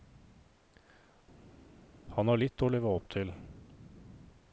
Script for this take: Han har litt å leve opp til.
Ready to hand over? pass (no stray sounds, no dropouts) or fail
pass